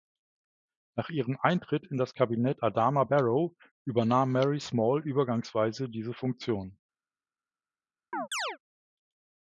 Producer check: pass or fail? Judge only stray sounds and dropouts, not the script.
fail